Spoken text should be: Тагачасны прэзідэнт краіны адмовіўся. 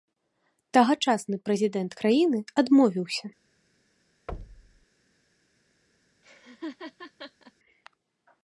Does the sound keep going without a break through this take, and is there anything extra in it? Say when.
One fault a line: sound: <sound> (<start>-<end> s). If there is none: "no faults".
sound: thud (4.3-4.9 s)
sound: laugh (6.2-7.5 s)